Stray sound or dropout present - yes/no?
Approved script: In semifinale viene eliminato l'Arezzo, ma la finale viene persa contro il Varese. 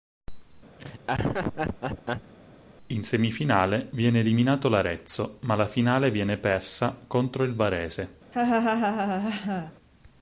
yes